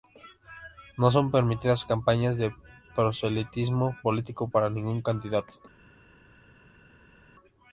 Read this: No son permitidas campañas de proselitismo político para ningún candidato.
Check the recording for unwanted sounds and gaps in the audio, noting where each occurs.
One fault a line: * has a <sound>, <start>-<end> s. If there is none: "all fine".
all fine